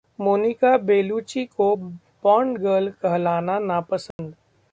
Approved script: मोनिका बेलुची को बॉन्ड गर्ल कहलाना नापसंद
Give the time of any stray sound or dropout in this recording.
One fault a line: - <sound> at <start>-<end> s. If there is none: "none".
- dropout at 4.1-4.2 s